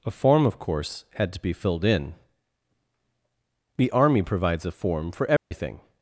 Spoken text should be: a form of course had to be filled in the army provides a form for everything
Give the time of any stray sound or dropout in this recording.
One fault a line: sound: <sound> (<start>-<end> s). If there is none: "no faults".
sound: dropout (5.4-5.5 s)